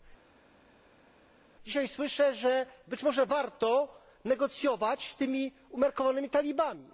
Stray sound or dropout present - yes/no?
no